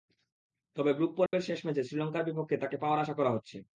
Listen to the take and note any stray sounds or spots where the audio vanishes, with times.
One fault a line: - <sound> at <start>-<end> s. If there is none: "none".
- dropout at 1.3-1.3 s